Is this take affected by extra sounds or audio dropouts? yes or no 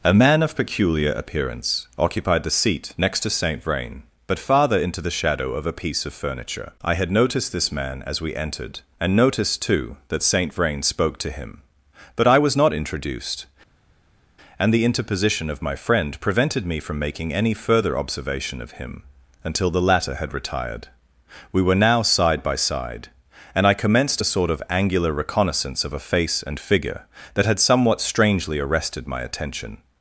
no